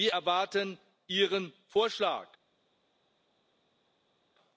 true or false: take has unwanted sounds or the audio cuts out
false